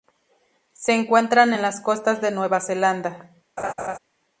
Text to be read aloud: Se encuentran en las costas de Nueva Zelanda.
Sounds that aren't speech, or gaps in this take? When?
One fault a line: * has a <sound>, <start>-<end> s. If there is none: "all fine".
* has a laugh, 3.6-4.0 s